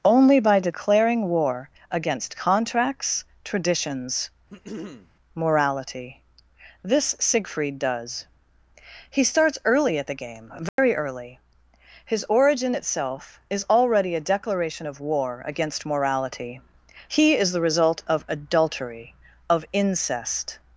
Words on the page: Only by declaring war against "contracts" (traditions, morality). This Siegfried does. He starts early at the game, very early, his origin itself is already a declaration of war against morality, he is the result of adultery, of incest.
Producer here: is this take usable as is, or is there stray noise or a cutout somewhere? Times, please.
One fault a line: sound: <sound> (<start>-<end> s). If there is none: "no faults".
sound: throat clearing (4.5-5.1 s)
sound: dropout (10.7-10.8 s)